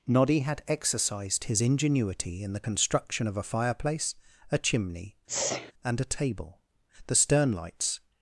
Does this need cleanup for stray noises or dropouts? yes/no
yes